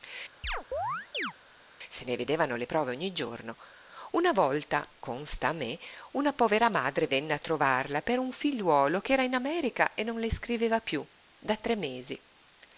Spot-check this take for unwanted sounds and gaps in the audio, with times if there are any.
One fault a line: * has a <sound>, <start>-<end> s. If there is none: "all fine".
* has a chirp, 0.4-1.3 s